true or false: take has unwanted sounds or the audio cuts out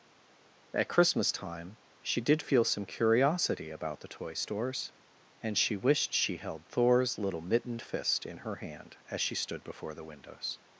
false